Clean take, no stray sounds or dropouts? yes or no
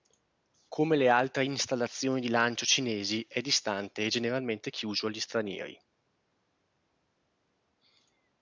yes